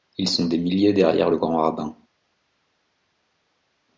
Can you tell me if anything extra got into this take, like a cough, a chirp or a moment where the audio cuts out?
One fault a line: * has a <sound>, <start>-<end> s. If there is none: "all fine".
all fine